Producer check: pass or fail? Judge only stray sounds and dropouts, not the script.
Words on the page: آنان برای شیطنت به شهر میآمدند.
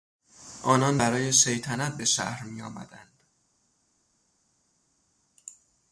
pass